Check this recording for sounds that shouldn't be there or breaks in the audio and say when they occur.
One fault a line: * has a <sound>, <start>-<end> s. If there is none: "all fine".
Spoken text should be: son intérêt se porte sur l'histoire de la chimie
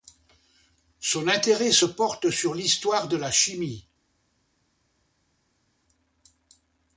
all fine